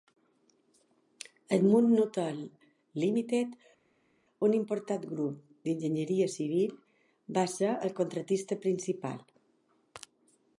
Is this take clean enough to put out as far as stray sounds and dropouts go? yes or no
yes